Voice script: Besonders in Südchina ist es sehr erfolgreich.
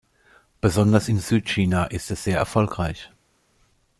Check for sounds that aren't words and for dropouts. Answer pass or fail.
pass